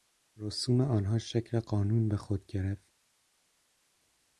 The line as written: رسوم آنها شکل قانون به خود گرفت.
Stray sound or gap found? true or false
false